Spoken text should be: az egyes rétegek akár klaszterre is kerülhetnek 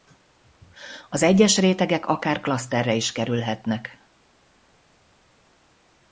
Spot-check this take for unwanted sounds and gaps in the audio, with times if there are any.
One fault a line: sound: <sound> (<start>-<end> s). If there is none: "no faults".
no faults